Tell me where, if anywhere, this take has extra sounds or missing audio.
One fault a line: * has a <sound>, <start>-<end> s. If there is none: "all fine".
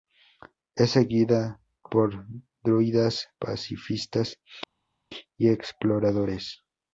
all fine